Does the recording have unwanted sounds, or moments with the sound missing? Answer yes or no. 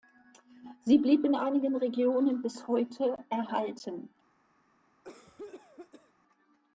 yes